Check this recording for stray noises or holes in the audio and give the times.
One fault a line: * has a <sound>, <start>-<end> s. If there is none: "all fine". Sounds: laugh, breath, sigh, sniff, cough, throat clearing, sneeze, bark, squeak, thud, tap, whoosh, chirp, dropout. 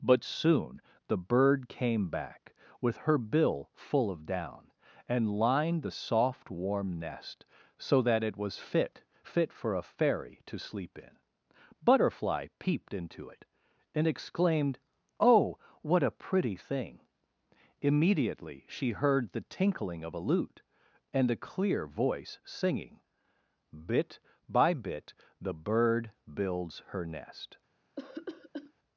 * has a cough, 28.0-28.7 s